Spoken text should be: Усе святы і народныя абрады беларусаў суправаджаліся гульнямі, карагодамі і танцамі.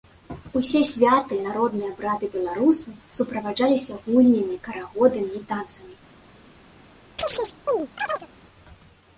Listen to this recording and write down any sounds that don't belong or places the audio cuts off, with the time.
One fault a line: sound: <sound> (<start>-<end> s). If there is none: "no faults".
sound: chirp (7.2-8.3 s)